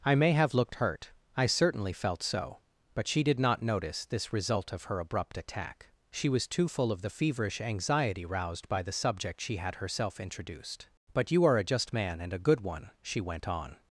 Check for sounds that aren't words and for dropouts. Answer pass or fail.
pass